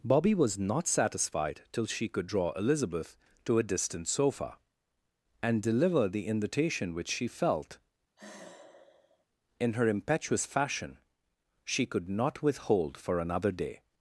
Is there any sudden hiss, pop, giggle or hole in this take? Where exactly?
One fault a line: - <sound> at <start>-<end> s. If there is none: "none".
- sigh at 8.2-9.3 s